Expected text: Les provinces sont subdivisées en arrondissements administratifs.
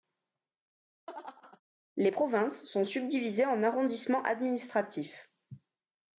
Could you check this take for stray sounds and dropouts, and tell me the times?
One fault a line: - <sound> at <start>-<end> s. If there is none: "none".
- laugh at 1.1-1.6 s